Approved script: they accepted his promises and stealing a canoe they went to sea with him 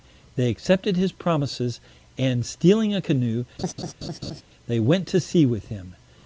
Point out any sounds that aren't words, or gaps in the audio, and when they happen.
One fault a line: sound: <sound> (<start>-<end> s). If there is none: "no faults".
sound: laugh (3.6-4.4 s)